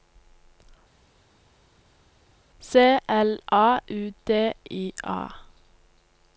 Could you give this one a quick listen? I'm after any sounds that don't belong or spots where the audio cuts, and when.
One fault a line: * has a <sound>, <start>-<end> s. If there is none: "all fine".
all fine